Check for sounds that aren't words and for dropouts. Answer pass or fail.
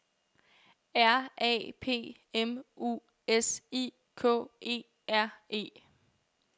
pass